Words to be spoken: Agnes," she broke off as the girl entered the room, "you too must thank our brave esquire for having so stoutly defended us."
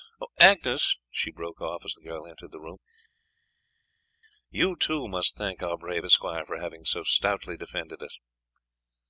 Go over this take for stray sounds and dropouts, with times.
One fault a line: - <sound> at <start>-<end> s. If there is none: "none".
none